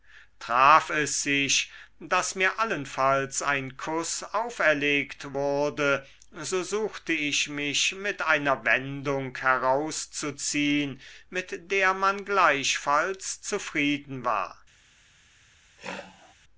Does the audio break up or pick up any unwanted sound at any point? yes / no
yes